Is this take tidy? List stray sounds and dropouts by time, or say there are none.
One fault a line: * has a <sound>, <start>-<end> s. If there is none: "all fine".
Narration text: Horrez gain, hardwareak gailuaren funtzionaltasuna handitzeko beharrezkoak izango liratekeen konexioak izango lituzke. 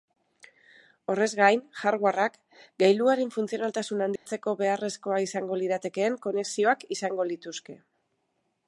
* has a dropout, 4.2-4.3 s